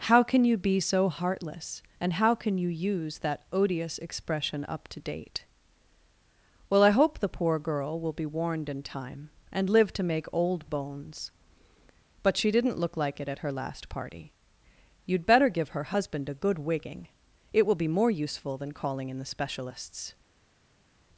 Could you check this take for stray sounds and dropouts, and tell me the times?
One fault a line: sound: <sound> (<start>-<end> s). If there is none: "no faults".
no faults